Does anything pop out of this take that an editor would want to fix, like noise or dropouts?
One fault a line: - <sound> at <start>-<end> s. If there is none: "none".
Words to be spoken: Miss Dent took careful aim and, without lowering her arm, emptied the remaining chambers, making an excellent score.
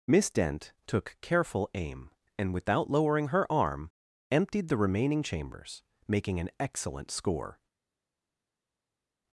none